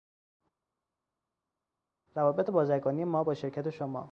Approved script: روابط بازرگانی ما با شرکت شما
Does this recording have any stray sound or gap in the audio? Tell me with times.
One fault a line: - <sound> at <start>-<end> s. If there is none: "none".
none